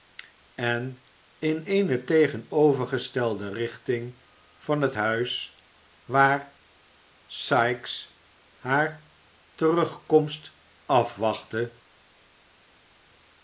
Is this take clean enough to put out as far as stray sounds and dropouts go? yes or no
yes